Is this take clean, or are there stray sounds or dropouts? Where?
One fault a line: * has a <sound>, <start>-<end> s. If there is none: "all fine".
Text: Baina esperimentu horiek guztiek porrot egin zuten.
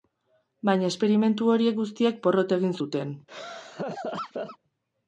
* has a laugh, 3.3-4.6 s